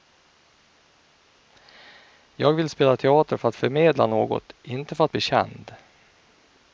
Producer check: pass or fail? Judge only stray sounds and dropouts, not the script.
pass